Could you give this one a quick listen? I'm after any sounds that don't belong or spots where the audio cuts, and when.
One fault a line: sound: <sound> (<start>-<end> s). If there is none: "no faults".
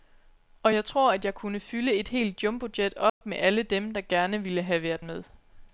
sound: dropout (3.1-3.2 s)